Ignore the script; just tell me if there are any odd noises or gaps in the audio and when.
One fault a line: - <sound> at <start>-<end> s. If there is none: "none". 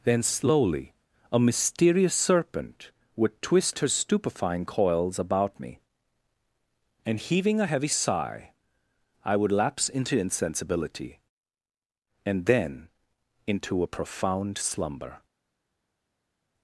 none